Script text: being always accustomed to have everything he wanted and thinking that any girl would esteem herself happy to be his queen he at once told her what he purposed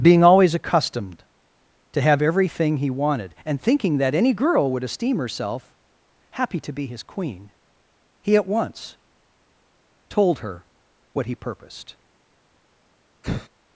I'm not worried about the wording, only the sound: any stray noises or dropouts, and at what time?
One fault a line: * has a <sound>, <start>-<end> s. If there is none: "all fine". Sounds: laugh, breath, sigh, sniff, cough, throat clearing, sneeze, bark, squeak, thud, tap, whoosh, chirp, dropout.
* has a sigh, 13.2-13.5 s